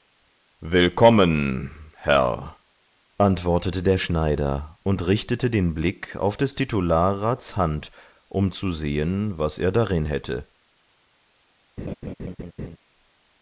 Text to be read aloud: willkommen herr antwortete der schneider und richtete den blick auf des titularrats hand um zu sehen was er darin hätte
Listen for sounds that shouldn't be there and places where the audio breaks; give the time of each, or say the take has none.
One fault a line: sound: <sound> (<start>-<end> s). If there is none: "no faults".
sound: laugh (11.8-12.8 s)